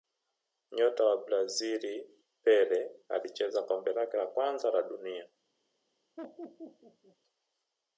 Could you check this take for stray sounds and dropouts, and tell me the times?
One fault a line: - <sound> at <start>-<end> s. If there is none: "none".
- laugh at 6.2-7.2 s